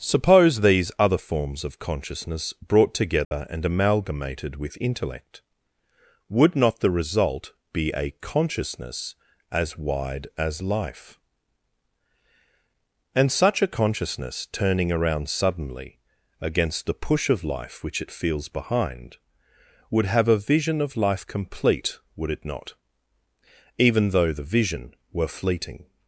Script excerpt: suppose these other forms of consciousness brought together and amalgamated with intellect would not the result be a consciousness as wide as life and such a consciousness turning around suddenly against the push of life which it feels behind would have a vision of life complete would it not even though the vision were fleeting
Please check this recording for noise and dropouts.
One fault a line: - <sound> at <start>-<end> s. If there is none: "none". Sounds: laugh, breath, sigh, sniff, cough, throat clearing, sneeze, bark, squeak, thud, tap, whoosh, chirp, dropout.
- dropout at 3.2-3.3 s